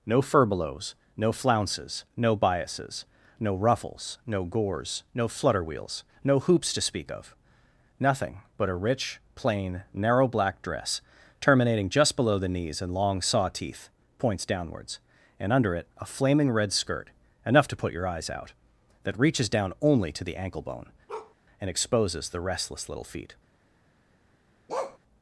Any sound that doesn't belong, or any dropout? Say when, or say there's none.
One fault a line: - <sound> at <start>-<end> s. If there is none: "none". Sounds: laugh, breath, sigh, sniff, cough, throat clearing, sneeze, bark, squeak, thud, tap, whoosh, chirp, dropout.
- bark at 21.1-21.3 s
- bark at 24.7-25.0 s